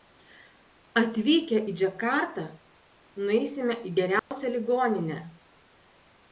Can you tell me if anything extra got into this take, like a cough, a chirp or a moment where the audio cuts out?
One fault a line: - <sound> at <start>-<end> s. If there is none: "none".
- dropout at 4.2-4.3 s